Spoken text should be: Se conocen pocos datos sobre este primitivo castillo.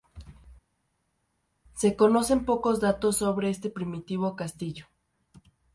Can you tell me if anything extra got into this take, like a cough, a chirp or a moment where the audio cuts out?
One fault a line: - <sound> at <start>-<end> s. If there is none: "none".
none